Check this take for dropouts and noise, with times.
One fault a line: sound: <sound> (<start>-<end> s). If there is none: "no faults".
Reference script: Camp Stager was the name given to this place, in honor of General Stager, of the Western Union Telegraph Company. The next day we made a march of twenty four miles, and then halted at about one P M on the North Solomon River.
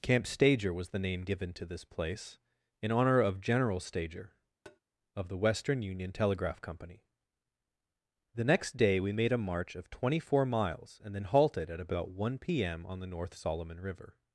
sound: tap (4.6-4.8 s)